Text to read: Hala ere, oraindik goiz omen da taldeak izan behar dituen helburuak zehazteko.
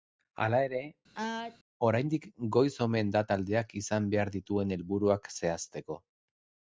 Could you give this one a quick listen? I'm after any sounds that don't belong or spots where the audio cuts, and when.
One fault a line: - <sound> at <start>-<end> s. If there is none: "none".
- sneeze at 1.1-1.6 s